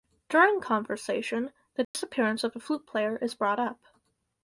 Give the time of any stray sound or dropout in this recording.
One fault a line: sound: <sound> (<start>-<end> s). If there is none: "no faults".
sound: dropout (1.8-1.9 s)